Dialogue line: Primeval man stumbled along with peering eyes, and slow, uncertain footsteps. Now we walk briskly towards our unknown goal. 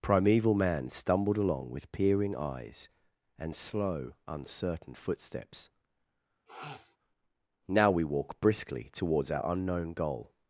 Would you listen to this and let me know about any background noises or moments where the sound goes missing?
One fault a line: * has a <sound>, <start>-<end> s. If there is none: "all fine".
* has a sniff, 6.5-7.0 s